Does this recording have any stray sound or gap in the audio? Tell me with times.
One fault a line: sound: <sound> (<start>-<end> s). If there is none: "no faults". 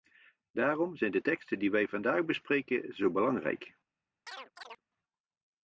sound: chirp (4.3-4.8 s)